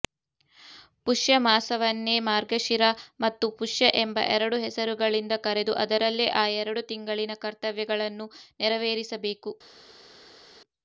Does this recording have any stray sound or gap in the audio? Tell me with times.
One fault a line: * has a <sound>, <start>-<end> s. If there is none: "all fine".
all fine